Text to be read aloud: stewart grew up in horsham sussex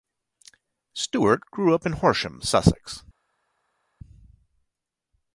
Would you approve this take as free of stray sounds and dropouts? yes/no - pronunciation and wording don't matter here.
yes